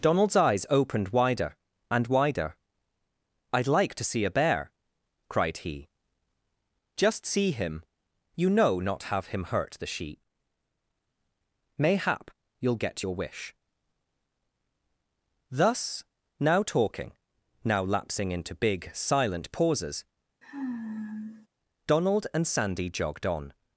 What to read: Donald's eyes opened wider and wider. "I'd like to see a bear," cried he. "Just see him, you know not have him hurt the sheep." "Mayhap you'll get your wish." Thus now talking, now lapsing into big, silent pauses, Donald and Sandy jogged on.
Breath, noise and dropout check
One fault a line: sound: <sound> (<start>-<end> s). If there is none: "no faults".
sound: sigh (20.4-21.5 s)